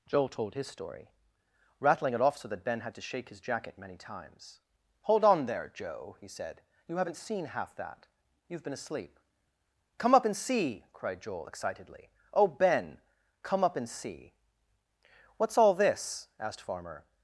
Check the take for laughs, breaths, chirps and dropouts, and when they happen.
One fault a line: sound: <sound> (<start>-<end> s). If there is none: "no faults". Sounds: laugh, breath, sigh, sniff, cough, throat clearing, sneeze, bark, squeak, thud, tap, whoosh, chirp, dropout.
no faults